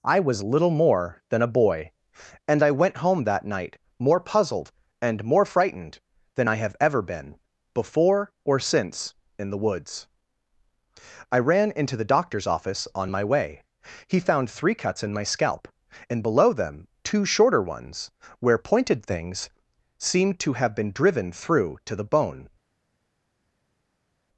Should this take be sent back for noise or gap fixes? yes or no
no